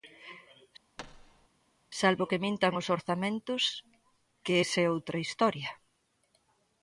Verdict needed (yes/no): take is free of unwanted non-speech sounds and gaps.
no